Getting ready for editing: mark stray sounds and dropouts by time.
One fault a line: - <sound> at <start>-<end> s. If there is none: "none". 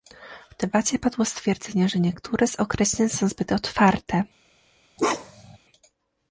- bark at 5.0-5.6 s